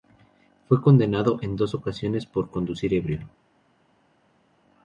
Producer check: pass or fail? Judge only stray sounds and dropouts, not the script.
pass